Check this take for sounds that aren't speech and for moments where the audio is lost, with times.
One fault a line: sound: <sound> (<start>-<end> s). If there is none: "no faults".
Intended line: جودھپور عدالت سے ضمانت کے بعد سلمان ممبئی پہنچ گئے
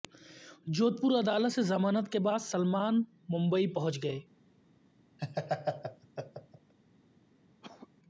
sound: laugh (5.2-6.7 s)
sound: cough (7.6-7.9 s)